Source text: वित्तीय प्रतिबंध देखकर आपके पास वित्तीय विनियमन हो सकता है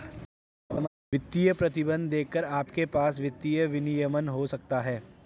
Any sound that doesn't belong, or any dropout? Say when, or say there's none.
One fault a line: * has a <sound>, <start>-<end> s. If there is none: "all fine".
* has a laugh, 0.7-0.9 s